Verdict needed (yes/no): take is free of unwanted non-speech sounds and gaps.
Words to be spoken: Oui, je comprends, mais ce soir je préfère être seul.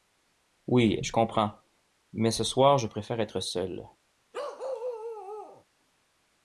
no